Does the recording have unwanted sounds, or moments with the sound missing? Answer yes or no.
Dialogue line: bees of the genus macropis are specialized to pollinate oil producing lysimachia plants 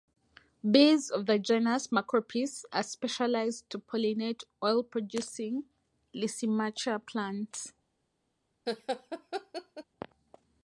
yes